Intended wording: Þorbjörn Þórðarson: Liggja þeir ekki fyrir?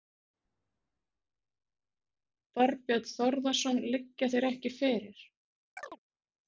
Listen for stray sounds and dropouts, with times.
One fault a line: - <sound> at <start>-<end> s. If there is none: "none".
- chirp at 5.8-6.0 s